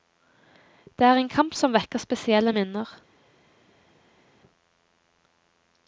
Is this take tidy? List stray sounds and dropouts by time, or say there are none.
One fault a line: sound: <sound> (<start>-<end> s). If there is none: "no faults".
no faults